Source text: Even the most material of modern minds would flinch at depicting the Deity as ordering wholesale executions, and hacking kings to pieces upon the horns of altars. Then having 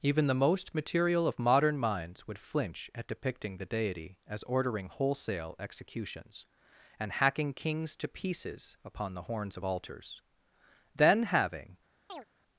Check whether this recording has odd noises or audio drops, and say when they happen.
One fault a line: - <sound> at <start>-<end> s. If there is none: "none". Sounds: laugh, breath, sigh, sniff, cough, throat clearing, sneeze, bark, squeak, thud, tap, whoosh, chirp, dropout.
- chirp at 12.1-12.3 s